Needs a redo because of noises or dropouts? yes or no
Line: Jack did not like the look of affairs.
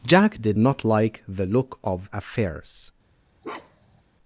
yes